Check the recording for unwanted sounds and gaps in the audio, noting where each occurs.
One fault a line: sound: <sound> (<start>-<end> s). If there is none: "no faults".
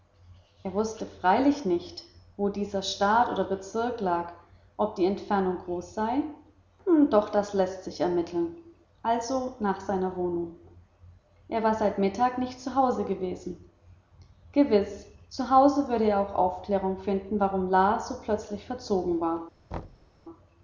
sound: thud (19.7-20.1 s)